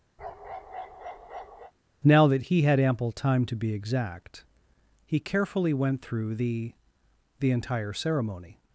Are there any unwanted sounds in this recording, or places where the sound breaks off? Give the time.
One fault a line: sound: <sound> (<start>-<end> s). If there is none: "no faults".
sound: bark (0.2-1.7 s)